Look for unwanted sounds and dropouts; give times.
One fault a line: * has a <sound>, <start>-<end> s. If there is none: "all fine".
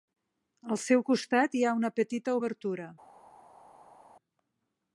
all fine